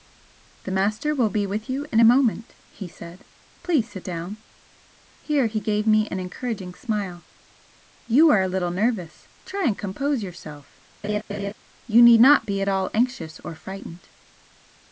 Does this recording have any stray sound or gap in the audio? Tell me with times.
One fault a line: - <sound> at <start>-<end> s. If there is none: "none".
- laugh at 11.0-11.5 s